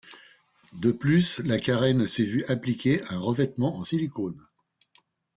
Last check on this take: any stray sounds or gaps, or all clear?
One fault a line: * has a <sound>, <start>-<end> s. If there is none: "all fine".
all fine